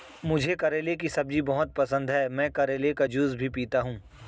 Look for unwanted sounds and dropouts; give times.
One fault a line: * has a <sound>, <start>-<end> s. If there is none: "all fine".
all fine